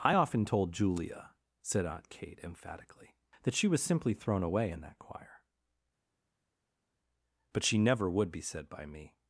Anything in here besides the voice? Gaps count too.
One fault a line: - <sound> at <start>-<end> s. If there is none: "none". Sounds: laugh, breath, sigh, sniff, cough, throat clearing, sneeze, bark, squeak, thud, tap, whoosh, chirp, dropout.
none